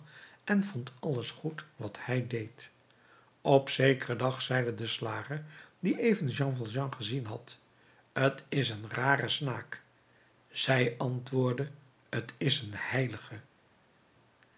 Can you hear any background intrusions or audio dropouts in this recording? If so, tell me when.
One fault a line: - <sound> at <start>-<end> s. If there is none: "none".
none